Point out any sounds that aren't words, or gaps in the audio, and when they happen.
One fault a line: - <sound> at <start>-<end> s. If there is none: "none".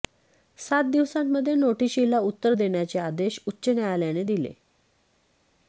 none